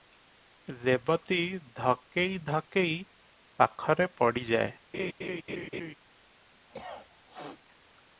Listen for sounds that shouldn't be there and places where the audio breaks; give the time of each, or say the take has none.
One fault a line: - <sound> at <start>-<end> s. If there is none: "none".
- laugh at 4.9-5.9 s
- cough at 6.7-7.6 s